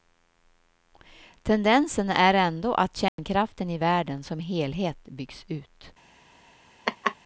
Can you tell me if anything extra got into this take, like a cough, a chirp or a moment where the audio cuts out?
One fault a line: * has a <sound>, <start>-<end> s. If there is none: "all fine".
* has a dropout, 3.1-3.2 s
* has a laugh, 6.9-7.2 s